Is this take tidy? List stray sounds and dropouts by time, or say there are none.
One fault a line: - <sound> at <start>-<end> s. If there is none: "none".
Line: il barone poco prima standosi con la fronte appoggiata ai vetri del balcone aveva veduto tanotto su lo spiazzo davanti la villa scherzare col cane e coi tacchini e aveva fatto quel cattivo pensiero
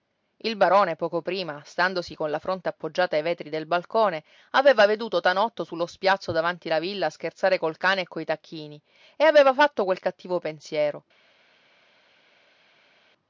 none